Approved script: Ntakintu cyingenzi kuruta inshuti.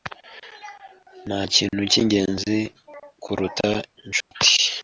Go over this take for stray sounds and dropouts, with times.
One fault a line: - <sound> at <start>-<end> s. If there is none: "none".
- dropout at 4.2-4.3 s